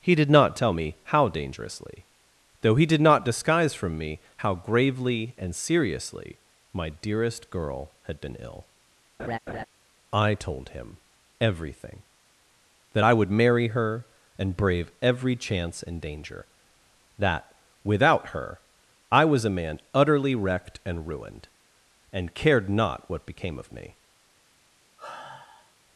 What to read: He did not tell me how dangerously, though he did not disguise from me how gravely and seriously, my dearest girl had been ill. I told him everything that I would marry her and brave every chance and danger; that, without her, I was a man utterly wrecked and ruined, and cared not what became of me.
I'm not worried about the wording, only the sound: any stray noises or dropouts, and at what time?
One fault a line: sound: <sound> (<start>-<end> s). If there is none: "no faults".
sound: laugh (9.2-9.7 s)
sound: sigh (25.0-25.7 s)